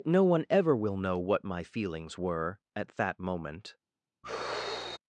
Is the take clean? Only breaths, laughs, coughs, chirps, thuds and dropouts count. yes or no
no